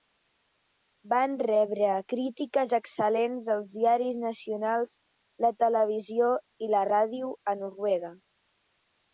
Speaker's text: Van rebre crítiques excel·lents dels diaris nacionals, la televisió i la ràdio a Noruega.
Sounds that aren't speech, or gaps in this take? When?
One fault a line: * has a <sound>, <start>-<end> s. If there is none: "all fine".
all fine